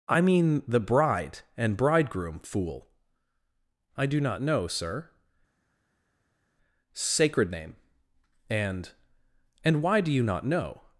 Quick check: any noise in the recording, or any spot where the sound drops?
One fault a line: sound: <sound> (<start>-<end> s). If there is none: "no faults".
no faults